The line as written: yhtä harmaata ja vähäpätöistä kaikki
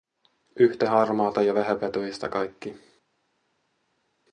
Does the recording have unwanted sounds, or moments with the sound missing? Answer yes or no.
no